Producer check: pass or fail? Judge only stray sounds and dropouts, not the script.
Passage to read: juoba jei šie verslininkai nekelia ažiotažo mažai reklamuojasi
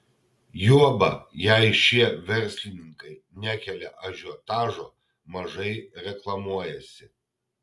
pass